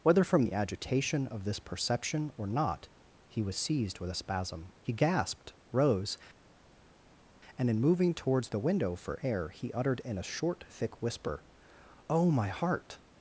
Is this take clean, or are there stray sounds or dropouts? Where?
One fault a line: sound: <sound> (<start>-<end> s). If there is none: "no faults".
no faults